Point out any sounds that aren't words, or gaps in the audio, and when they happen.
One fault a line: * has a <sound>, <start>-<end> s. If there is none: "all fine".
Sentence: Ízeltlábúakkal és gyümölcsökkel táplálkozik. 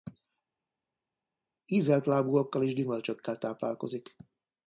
all fine